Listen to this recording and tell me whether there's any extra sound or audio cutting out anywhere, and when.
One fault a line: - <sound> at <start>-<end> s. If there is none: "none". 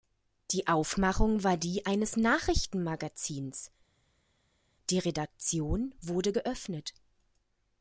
none